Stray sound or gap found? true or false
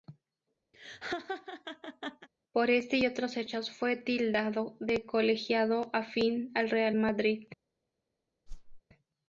true